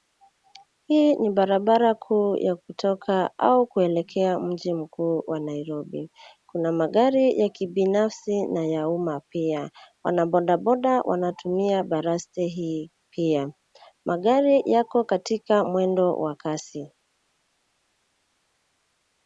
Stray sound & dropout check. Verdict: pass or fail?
pass